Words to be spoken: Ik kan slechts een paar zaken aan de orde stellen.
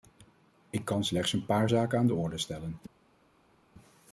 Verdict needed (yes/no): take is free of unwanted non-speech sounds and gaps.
yes